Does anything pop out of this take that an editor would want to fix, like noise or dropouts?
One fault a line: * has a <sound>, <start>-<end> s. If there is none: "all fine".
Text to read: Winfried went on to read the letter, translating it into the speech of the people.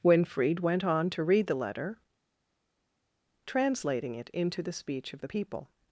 all fine